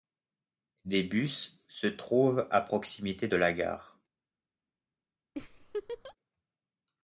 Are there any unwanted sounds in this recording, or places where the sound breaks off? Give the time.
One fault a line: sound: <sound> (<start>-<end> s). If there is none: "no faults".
sound: laugh (5.4-6.2 s)